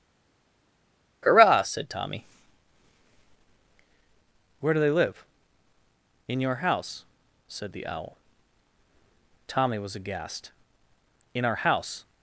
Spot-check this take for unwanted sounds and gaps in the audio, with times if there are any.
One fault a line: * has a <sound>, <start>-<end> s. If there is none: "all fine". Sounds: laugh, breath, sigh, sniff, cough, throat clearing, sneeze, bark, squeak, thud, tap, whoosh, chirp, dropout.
all fine